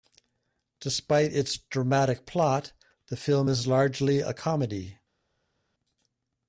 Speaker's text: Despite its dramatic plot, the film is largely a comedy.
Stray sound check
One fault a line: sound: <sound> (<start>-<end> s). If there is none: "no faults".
no faults